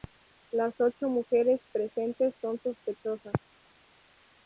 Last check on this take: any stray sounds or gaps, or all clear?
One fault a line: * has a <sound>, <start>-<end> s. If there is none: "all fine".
all fine